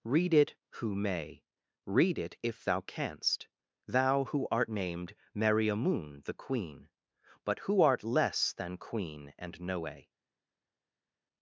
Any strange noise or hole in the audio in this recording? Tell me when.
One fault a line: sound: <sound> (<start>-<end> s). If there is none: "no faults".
no faults